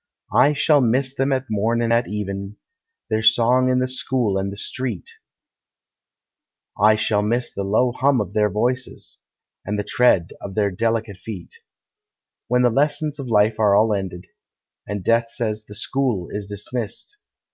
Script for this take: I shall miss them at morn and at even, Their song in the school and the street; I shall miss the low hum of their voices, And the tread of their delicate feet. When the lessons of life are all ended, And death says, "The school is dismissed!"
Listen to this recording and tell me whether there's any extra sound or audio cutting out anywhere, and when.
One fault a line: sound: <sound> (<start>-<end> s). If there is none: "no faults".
no faults